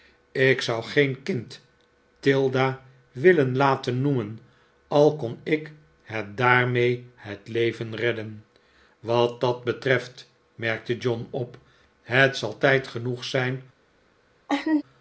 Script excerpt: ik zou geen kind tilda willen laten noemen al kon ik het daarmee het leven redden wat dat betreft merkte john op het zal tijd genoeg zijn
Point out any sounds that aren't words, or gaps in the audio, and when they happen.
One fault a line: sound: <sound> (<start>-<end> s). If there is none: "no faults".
sound: laugh (14.5-14.8 s)